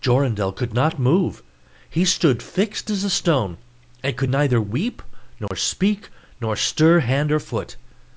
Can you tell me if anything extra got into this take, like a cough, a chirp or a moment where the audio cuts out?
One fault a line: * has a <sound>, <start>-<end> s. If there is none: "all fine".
* has a dropout, 5.5-5.5 s